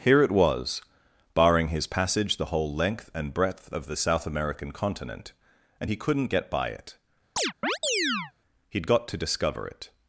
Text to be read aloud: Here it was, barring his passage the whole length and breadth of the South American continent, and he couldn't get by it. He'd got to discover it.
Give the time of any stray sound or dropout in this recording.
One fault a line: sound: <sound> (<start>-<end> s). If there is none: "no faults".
sound: chirp (7.4-8.3 s)